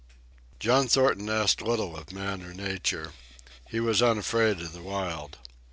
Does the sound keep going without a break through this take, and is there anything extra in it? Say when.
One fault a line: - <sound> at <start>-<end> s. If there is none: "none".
none